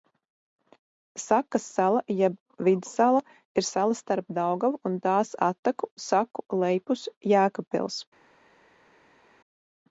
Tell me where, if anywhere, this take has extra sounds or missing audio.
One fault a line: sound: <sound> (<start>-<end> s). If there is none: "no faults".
no faults